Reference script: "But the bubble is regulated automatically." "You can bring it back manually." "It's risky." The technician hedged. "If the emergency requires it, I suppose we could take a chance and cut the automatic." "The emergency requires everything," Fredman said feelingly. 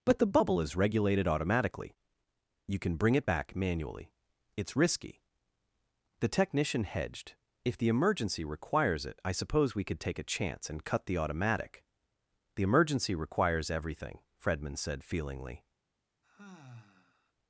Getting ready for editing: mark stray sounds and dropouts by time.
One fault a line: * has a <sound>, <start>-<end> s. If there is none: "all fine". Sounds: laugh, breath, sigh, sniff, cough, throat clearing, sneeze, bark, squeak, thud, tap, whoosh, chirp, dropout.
* has a sigh, 16.2-17.3 s